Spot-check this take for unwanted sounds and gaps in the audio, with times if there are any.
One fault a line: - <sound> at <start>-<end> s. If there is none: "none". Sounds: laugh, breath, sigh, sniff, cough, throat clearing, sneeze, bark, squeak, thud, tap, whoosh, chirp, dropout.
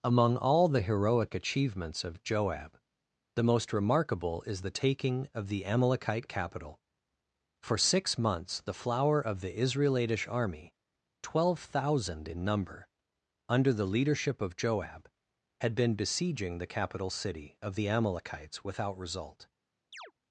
- chirp at 19.9-20.1 s